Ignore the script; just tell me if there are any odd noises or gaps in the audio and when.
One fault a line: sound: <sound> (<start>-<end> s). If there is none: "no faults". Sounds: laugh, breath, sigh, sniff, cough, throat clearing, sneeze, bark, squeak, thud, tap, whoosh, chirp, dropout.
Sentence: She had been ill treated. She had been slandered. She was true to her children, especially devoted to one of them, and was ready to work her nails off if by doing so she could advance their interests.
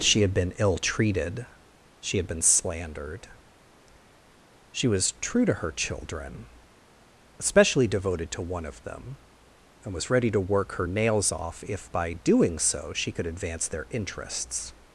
no faults